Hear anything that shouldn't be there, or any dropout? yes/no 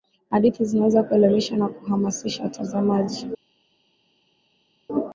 no